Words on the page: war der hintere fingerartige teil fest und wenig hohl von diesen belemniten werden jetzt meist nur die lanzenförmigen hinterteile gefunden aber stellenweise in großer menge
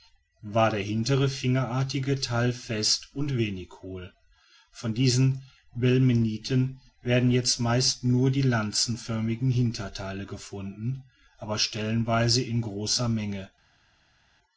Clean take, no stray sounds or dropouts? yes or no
yes